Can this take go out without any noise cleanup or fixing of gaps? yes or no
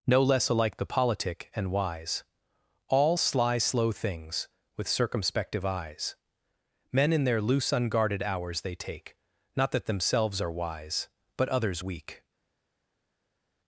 yes